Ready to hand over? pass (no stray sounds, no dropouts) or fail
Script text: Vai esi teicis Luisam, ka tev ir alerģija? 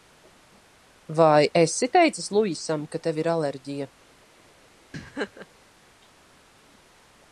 fail